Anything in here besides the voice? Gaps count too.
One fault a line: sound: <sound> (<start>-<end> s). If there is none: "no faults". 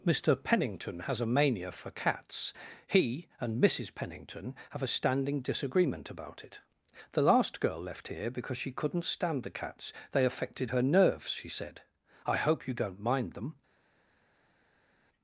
no faults